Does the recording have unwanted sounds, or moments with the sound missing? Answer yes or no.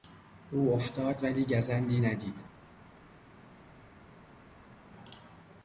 no